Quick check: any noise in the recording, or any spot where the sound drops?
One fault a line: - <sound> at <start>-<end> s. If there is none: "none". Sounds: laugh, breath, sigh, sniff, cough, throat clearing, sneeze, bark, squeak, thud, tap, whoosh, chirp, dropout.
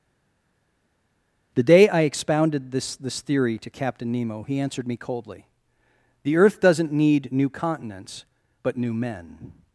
none